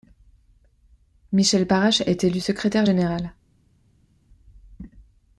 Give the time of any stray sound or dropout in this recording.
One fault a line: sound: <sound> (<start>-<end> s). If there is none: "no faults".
no faults